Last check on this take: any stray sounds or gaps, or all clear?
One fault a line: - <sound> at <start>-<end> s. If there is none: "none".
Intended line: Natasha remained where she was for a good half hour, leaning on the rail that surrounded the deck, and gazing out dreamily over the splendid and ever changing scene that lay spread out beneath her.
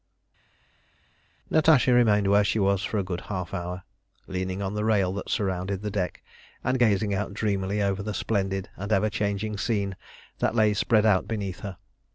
none